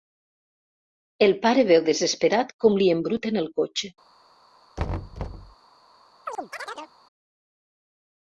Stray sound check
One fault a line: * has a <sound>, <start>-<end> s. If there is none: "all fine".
* has a thud, 4.8-5.5 s
* has a chirp, 6.3-6.9 s